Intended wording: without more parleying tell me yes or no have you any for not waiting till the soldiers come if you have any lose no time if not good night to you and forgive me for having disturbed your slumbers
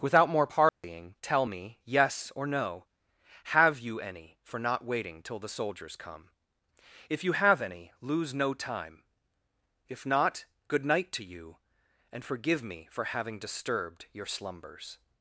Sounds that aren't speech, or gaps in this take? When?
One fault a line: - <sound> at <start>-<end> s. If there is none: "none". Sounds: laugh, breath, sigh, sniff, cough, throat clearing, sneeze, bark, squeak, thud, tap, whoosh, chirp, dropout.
- dropout at 0.7-0.8 s